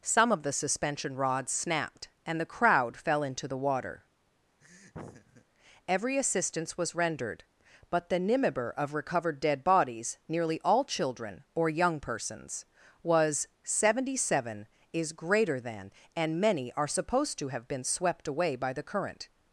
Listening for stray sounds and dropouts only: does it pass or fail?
fail